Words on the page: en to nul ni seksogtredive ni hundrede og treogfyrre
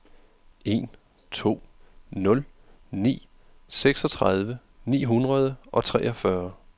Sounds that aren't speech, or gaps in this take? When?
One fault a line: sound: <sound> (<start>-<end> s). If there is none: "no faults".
no faults